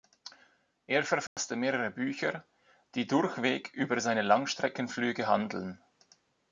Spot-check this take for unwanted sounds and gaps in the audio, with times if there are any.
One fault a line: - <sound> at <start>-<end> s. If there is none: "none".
- dropout at 1.3-1.4 s